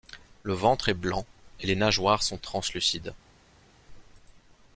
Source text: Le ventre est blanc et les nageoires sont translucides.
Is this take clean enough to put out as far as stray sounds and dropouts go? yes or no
yes